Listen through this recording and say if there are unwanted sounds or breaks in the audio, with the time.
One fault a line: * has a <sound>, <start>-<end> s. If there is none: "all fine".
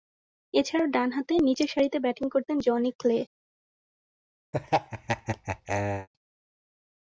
* has a laugh, 4.5-6.1 s